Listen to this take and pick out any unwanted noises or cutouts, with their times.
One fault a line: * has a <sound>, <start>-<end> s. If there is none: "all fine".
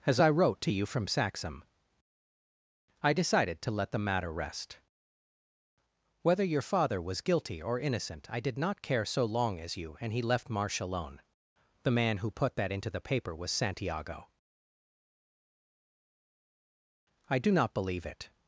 all fine